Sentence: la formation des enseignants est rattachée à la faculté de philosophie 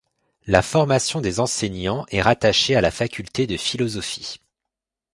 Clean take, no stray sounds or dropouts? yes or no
yes